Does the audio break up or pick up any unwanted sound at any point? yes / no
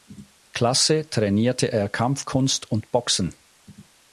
no